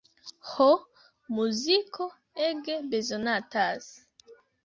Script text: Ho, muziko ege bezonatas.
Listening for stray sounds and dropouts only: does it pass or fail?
pass